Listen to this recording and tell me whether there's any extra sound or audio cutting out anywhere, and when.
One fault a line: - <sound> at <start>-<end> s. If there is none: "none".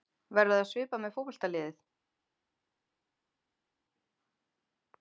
none